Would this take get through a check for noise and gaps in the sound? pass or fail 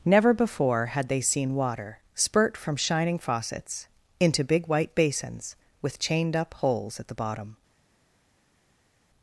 pass